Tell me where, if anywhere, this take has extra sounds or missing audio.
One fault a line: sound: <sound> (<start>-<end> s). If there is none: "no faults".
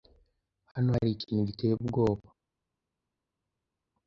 no faults